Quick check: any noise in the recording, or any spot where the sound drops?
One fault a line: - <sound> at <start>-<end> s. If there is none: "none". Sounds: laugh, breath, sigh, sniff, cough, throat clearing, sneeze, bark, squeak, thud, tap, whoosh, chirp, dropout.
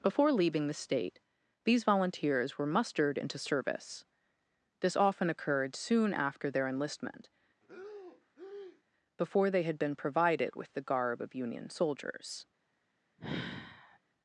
- breath at 7.6-8.8 s
- sigh at 13.2-14.0 s